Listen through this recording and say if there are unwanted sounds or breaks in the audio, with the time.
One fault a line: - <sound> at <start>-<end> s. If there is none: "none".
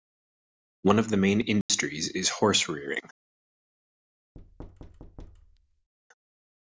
- dropout at 1.6-1.7 s
- thud at 4.3-5.9 s